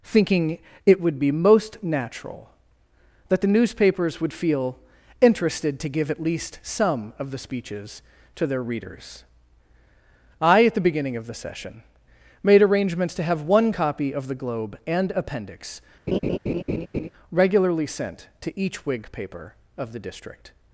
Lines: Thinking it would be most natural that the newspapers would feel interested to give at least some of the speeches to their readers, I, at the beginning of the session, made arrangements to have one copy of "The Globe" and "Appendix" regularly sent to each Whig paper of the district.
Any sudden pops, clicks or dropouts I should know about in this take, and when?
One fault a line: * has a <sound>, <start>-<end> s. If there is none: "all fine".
* has a laugh, 16.1-17.1 s